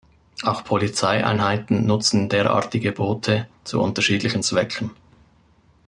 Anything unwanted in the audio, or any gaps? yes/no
no